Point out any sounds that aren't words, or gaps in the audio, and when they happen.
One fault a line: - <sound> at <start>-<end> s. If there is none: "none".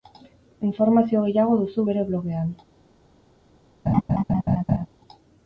- laugh at 3.9-4.9 s